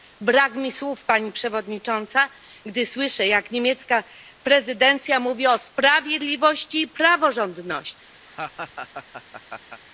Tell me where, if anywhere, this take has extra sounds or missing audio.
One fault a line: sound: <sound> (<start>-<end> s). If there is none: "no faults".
sound: laugh (8.3-9.8 s)